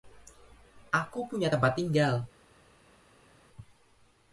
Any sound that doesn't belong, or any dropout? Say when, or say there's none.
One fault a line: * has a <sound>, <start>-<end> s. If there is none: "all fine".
all fine